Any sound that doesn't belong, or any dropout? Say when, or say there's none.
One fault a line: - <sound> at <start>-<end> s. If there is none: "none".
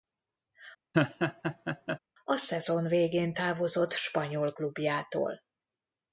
- laugh at 0.9-2.0 s